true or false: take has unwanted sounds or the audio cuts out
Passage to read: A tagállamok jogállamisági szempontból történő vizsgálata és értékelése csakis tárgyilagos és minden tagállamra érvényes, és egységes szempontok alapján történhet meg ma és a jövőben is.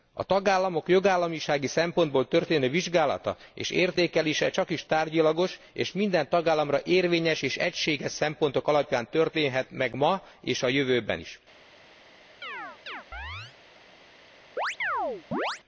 true